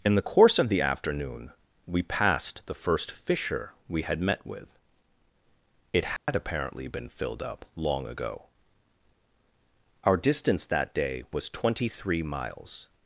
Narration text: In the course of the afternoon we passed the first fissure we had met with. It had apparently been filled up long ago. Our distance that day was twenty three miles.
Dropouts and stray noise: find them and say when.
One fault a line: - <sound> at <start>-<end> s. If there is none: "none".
- dropout at 6.2-6.3 s